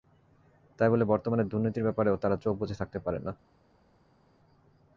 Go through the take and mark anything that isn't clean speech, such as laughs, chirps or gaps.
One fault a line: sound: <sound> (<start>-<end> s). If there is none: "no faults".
no faults